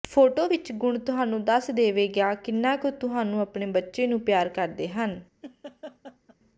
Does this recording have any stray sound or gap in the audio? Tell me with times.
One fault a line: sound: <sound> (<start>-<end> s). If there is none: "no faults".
sound: laugh (5.4-6.4 s)